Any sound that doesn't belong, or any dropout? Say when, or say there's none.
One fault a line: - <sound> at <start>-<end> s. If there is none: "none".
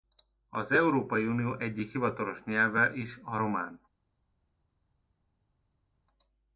none